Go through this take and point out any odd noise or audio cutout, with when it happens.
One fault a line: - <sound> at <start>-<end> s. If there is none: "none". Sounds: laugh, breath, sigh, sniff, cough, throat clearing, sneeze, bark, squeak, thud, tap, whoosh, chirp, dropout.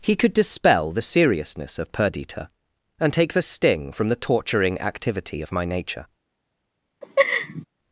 - laugh at 7.0-7.7 s